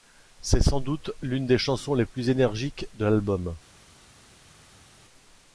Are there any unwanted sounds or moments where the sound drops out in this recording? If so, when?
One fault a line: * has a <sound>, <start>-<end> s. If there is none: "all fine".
all fine